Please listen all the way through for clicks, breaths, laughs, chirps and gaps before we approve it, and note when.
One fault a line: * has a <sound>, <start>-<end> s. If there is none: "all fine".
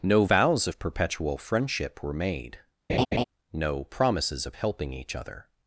* has a laugh, 2.9-3.2 s